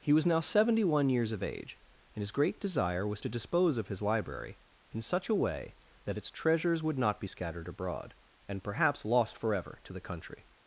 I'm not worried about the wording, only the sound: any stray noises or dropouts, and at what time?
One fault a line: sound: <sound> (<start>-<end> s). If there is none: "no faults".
no faults